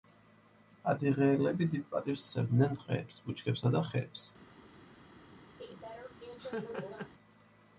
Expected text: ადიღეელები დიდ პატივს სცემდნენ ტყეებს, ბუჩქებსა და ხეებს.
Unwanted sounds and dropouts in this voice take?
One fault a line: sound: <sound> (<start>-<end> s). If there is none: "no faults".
sound: laugh (5.6-7.1 s)